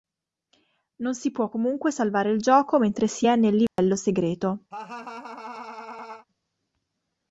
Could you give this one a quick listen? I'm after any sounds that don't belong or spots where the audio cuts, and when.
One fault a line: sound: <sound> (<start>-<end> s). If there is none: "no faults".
sound: dropout (3.7-3.8 s)
sound: laugh (4.7-6.3 s)